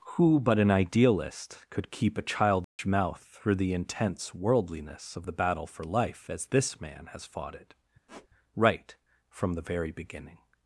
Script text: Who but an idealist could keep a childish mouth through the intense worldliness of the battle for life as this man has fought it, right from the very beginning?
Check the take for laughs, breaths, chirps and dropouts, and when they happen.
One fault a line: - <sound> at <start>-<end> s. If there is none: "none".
- dropout at 2.6-2.8 s
- squeak at 8.1-8.3 s